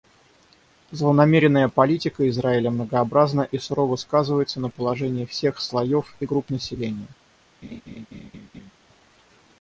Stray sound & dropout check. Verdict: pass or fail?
fail